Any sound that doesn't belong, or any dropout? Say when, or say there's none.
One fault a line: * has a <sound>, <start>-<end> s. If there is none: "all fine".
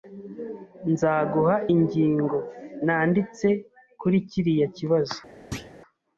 * has a thud, 5.5-5.8 s